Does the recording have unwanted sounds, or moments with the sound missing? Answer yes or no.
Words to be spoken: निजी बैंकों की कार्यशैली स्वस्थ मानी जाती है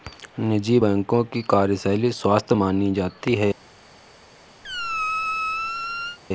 yes